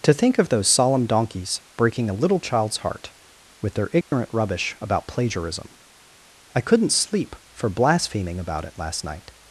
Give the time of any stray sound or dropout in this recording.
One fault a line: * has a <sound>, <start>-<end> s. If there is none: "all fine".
* has a dropout, 4.0-4.1 s